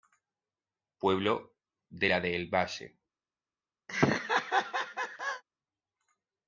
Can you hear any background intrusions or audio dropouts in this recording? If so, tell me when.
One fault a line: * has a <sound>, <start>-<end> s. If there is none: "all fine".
* has a laugh, 3.9-5.4 s